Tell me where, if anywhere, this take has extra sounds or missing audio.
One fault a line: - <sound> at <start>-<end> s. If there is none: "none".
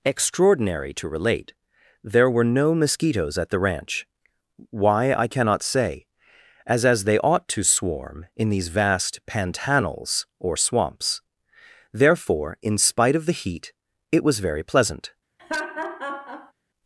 - laugh at 15.4-16.5 s